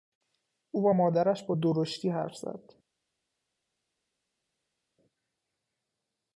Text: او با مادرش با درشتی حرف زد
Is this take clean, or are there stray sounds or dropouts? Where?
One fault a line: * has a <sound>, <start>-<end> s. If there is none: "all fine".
all fine